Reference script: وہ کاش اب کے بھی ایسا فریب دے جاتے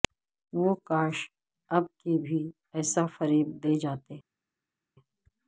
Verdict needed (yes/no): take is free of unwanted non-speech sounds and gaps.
yes